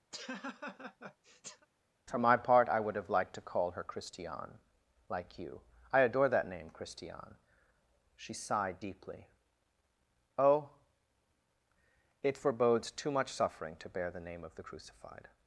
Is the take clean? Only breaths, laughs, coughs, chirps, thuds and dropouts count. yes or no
no